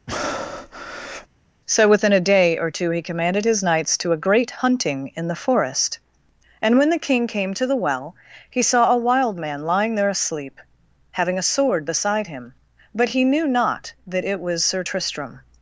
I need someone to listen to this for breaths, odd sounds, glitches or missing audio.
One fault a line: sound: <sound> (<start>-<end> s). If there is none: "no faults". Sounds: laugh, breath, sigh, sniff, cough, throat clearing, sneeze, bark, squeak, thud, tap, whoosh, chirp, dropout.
sound: breath (0.1-1.3 s)